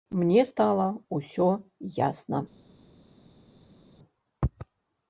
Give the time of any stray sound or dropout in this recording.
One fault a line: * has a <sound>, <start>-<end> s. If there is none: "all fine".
all fine